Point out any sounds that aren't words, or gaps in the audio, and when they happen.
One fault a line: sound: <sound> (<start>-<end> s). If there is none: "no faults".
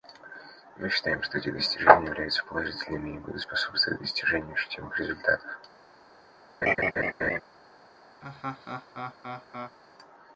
sound: laugh (6.6-7.4 s)
sound: laugh (8.2-9.8 s)